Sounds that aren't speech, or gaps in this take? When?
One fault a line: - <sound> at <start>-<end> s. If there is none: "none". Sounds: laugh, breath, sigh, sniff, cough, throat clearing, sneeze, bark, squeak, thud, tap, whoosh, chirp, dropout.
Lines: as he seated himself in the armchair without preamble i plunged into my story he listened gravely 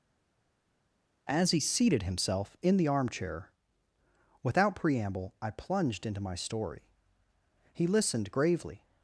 none